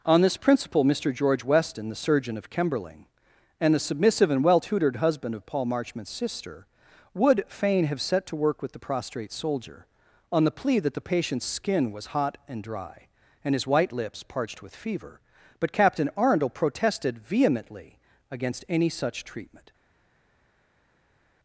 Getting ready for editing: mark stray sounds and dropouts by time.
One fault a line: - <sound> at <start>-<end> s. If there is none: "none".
none